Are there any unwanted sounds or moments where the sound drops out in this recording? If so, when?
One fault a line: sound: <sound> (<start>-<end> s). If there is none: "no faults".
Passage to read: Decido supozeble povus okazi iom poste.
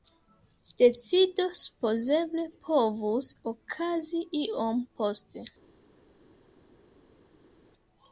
no faults